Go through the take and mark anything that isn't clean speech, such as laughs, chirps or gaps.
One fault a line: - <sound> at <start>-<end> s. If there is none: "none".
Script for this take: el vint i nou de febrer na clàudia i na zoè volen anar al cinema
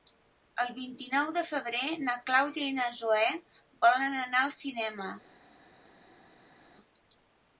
none